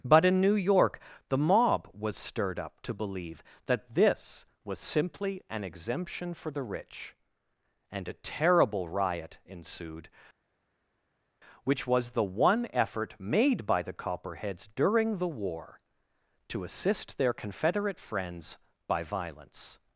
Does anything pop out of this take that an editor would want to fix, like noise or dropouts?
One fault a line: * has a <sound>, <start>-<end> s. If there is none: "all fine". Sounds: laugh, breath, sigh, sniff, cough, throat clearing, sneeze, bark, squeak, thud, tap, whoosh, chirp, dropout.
all fine